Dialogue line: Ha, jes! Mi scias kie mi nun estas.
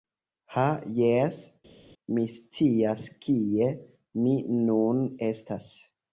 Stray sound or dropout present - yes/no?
no